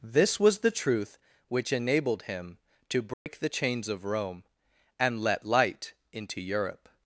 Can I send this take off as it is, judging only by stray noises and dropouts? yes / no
no